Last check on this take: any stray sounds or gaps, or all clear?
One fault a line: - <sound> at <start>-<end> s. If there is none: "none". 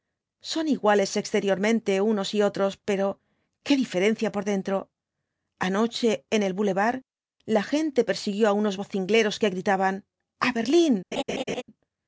- laugh at 11.1-11.6 s